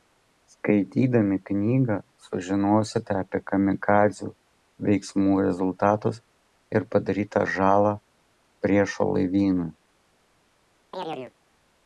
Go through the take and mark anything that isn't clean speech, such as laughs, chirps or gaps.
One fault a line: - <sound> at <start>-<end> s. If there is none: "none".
- chirp at 10.9-11.3 s